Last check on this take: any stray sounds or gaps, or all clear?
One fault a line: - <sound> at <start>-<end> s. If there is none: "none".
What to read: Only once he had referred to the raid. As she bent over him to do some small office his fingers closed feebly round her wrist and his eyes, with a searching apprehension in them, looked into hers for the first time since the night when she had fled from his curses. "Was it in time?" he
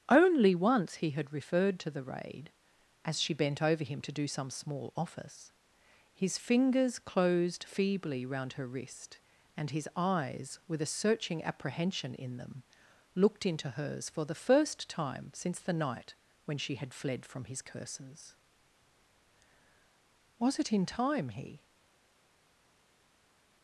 none